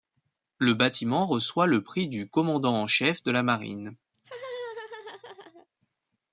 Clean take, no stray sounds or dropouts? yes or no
no